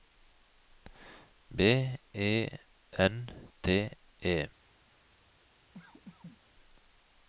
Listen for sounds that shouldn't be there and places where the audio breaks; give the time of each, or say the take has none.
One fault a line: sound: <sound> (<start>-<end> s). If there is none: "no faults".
sound: cough (5.7-6.4 s)